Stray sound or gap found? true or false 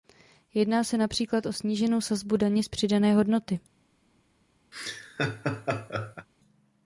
true